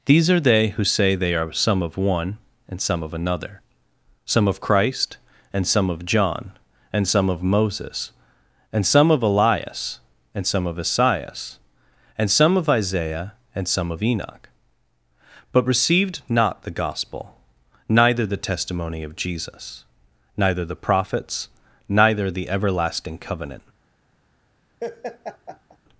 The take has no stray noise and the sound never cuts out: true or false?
false